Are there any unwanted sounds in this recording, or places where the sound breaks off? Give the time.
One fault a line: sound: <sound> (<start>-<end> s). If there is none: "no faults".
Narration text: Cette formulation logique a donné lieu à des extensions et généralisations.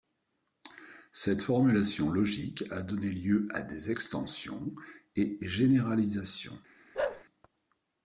sound: bark (6.9-7.2 s)